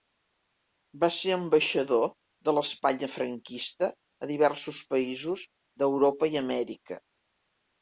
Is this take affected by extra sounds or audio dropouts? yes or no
no